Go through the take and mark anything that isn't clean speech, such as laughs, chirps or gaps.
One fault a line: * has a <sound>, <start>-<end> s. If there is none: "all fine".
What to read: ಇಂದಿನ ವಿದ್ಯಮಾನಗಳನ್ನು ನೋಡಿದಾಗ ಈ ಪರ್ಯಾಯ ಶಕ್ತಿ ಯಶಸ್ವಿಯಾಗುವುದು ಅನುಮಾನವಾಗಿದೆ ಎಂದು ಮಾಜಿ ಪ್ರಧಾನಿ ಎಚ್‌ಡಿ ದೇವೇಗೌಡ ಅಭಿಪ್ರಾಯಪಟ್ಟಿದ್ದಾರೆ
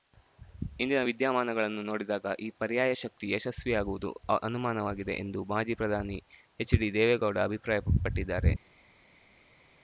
all fine